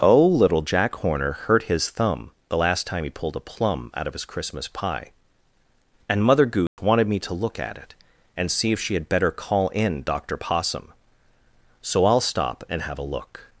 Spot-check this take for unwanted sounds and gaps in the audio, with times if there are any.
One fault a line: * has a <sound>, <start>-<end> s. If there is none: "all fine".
* has a dropout, 6.7-6.8 s